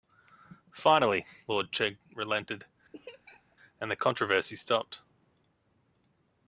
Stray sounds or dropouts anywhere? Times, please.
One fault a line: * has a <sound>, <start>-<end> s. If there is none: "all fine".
* has a laugh, 2.9-3.6 s